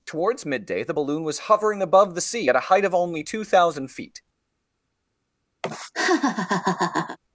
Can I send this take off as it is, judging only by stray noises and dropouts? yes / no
no